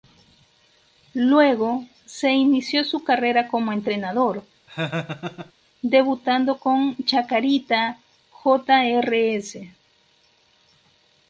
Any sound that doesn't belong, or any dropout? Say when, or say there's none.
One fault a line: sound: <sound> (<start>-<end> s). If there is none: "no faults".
sound: laugh (4.7-5.5 s)